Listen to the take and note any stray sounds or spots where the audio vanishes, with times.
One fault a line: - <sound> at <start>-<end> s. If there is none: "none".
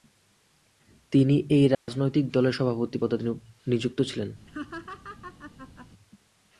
- dropout at 1.7-1.9 s
- laugh at 4.5-5.9 s